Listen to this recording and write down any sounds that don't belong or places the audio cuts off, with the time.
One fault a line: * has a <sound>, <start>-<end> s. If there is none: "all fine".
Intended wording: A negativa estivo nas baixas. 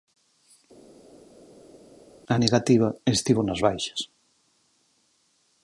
all fine